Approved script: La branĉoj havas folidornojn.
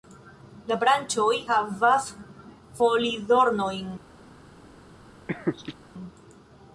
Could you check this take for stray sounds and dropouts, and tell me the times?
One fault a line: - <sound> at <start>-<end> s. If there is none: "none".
- laugh at 5.3-5.8 s